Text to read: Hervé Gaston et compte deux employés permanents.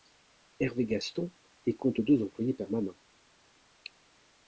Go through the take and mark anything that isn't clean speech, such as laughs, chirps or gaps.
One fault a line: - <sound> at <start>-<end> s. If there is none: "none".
none